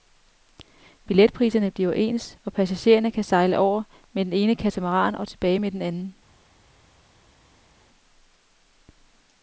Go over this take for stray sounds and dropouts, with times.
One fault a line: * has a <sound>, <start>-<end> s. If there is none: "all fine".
all fine